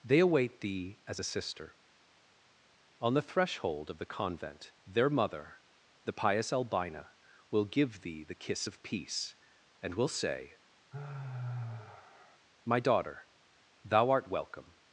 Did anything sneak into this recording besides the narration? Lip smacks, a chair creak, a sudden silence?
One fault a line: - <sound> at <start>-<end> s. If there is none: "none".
- sigh at 10.9-12.4 s